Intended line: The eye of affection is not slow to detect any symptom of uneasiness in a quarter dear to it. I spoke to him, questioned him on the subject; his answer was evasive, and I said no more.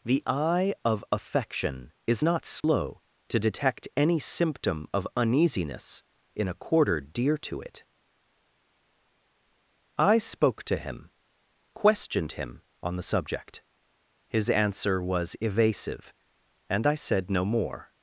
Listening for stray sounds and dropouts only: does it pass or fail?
fail